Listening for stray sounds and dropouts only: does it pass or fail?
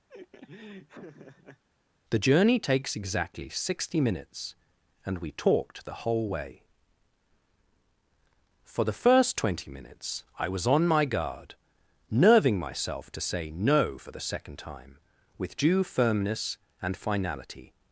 fail